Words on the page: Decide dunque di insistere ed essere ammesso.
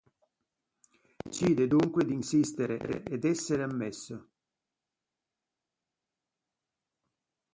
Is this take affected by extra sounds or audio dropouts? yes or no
no